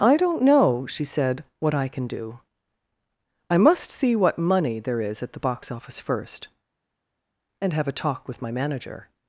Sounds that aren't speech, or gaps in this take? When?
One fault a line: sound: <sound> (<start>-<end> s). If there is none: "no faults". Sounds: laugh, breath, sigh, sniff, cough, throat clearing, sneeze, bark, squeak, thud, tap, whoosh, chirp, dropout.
no faults